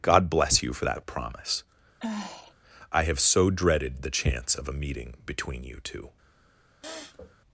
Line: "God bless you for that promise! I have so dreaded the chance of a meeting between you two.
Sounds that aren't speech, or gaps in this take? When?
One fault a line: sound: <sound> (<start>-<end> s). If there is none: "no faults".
sound: sigh (2.0-2.5 s)
sound: sniff (6.8-7.4 s)